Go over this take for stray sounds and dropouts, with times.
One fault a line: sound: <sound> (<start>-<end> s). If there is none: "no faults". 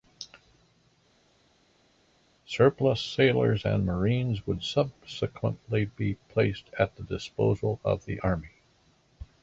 no faults